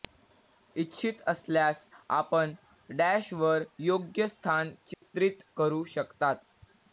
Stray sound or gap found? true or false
true